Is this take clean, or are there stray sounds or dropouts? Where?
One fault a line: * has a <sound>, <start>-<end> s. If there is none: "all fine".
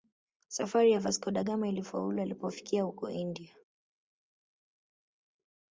all fine